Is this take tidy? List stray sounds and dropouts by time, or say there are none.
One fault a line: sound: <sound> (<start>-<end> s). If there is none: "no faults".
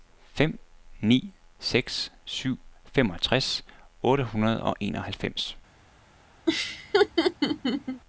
sound: laugh (6.5-8.0 s)